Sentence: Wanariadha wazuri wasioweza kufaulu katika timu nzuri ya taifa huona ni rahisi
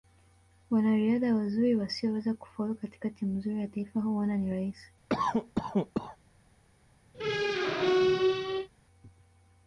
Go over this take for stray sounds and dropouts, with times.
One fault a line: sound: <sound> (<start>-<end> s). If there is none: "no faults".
sound: cough (5.1-6.2 s)
sound: squeak (7.1-8.7 s)